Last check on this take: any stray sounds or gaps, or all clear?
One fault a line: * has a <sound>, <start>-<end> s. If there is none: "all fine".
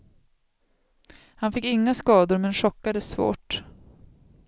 all fine